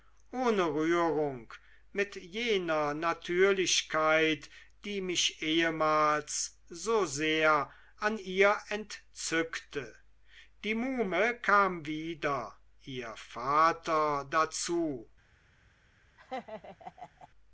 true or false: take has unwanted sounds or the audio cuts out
true